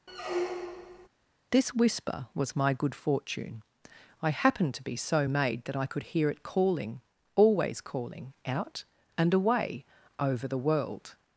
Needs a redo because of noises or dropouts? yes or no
yes